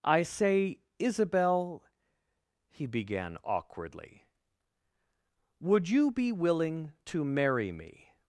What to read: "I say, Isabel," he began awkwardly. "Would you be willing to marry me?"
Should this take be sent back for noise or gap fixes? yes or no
no